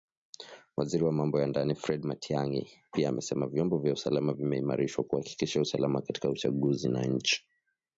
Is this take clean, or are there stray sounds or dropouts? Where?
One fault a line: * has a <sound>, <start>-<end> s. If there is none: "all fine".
all fine